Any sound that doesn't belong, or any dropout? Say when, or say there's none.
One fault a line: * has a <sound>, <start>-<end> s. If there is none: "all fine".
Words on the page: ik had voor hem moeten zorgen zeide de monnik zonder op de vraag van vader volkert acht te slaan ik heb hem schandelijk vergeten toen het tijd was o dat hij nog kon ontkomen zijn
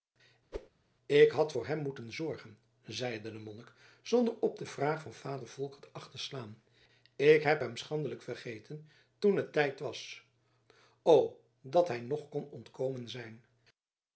* has a whoosh, 0.5-0.7 s